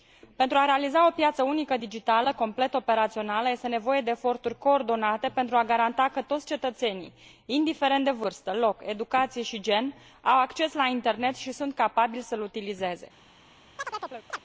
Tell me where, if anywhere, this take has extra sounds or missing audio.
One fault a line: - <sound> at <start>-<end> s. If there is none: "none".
- chirp at 13.8-14.4 s